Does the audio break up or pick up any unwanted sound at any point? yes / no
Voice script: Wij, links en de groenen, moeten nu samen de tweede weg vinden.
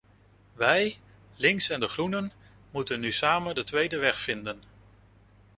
no